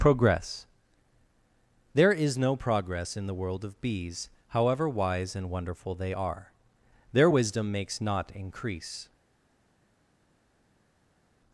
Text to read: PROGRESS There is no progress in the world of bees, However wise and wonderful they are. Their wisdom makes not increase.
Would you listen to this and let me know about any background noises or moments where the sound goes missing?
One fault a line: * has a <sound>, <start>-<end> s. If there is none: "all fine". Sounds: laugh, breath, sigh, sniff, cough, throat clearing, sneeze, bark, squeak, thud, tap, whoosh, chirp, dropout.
all fine